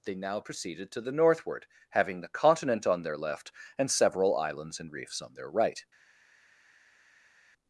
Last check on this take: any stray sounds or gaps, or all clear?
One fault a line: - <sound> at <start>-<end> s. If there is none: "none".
none